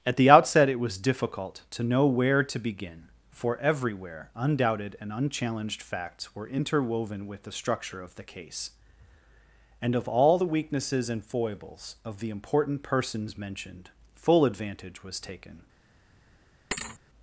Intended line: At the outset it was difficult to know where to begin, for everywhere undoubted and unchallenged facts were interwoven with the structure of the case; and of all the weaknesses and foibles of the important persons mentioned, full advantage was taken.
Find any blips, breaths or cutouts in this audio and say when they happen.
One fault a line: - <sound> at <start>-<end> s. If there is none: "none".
- thud at 16.7-17.0 s